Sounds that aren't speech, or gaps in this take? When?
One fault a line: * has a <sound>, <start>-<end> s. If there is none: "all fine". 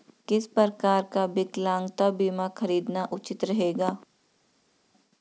all fine